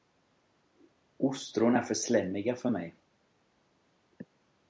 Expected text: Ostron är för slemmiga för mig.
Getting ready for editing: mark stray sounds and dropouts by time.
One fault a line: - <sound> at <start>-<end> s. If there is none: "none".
none